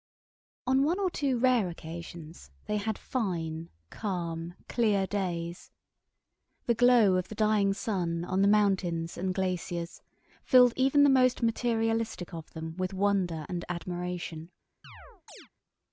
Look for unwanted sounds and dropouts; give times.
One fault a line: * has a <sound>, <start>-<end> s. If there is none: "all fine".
* has a chirp, 14.8-15.5 s